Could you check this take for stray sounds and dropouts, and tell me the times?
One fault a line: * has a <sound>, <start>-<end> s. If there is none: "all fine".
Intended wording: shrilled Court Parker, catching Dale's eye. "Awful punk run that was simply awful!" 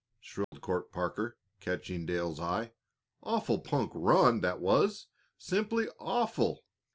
* has a dropout, 0.4-0.5 s